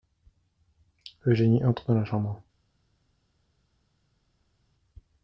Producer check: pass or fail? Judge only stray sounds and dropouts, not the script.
pass